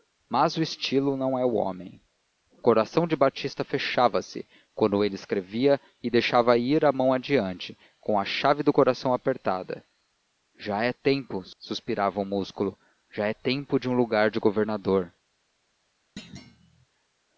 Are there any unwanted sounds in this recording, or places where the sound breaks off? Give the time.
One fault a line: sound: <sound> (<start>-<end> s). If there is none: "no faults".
sound: thud (16.2-16.9 s)